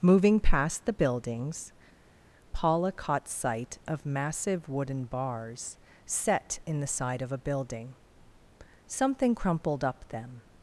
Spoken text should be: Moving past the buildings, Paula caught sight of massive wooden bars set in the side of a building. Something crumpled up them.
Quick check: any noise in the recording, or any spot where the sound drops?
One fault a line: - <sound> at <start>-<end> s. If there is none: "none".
none